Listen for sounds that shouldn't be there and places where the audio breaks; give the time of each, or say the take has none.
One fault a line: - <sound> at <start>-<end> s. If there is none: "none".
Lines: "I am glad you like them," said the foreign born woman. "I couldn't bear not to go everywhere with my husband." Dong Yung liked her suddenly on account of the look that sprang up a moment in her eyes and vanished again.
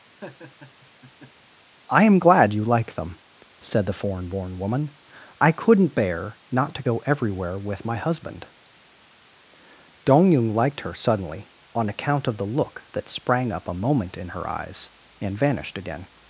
- laugh at 0.2-1.5 s